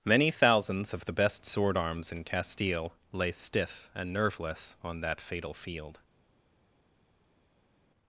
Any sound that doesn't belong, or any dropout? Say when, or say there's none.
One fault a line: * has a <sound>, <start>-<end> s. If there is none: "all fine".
all fine